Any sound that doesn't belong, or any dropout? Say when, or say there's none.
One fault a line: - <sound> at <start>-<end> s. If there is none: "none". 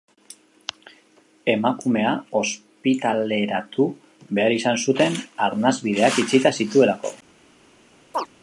- chirp at 8.1-8.3 s